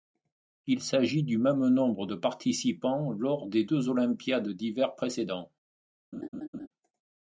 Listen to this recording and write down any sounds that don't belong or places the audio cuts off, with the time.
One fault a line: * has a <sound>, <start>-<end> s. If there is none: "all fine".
* has a laugh, 6.1-6.7 s